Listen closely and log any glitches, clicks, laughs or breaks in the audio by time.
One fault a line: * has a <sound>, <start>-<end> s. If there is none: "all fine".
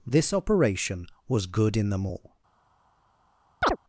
* has a chirp, 3.6-3.8 s